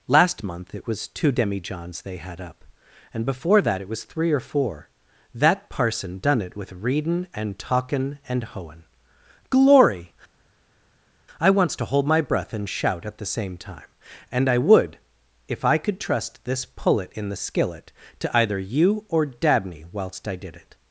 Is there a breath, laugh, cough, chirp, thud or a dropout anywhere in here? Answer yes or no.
no